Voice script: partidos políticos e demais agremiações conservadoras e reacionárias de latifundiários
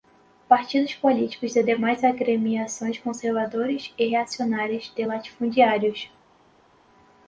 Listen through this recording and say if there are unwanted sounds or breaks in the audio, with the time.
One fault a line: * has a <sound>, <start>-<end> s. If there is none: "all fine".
all fine